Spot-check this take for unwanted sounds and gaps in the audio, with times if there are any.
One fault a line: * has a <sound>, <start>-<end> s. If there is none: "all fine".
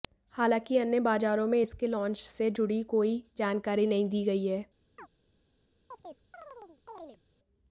* has a chirp, 5.0-5.1 s
* has a chirp, 5.9-7.2 s